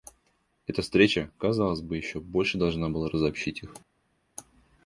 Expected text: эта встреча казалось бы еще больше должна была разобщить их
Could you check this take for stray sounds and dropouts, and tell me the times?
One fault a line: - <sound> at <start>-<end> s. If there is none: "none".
none